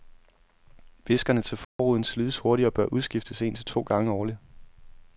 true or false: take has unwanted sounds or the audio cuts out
true